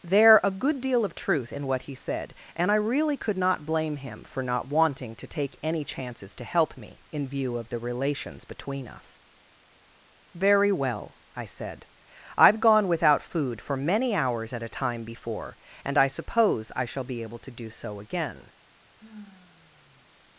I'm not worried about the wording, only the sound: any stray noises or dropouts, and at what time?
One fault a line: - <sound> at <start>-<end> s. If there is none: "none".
- sigh at 19.0-20.1 s